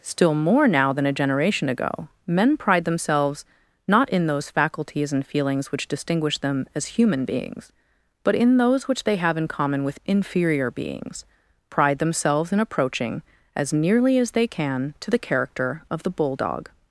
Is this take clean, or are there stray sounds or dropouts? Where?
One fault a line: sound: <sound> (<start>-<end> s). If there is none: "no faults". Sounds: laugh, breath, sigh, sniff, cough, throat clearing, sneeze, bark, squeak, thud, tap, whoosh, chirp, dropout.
no faults